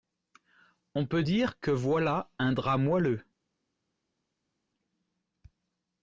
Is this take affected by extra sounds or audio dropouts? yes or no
no